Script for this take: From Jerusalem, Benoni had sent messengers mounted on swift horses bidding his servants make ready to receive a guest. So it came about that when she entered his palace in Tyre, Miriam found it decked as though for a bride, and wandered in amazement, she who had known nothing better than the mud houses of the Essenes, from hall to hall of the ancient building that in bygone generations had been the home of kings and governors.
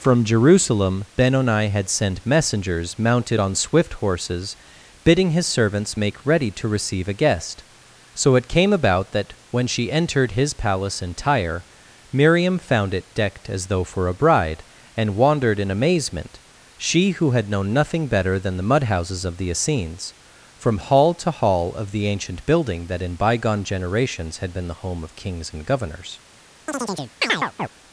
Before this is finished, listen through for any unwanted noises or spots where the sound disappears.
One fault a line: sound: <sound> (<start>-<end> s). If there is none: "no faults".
sound: chirp (26.7-27.7 s)